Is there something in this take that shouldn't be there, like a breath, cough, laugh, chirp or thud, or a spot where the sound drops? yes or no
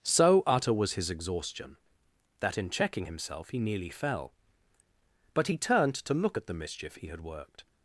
no